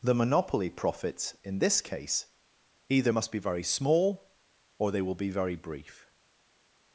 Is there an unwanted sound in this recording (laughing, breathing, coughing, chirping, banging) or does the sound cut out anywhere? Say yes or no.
no